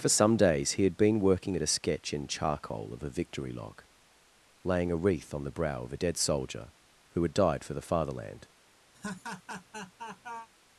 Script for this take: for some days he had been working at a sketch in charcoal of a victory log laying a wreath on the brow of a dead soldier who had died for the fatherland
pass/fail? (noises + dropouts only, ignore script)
fail